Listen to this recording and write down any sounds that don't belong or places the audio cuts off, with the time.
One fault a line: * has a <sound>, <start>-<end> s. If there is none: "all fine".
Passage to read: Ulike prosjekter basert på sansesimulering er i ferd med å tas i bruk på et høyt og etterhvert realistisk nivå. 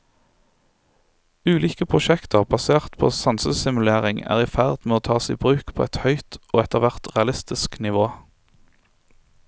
all fine